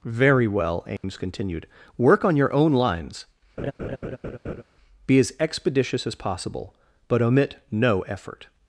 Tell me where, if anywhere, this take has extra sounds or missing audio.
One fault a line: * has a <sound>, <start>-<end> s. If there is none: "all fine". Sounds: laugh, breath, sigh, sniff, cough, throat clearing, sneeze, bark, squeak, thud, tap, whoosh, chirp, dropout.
* has a dropout, 1.0-1.0 s
* has a laugh, 3.6-4.6 s